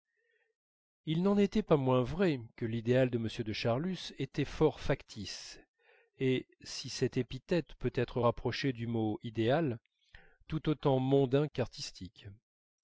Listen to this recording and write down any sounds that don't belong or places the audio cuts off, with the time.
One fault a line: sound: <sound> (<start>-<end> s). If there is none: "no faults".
no faults